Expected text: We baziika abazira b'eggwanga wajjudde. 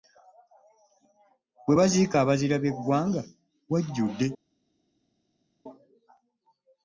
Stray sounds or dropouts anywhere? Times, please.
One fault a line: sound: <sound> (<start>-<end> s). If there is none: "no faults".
no faults